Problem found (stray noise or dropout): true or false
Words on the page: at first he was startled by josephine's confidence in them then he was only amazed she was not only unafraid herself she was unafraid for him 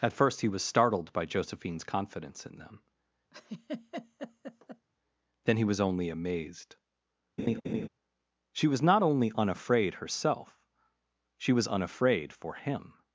true